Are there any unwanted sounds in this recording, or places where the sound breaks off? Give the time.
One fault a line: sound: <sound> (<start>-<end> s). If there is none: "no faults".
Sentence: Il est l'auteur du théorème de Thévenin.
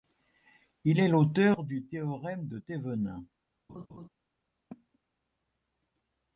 sound: laugh (3.7-4.1 s)
sound: cough (4.7-5.0 s)